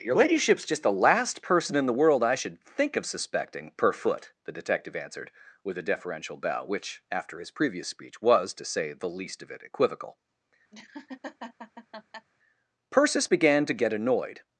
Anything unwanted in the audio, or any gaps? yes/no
yes